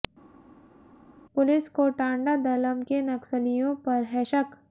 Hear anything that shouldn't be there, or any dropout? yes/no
no